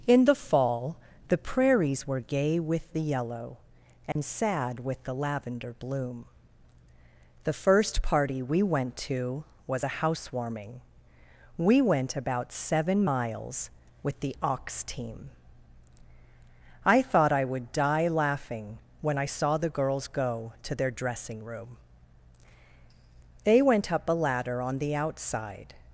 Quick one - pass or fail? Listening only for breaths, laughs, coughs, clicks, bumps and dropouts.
fail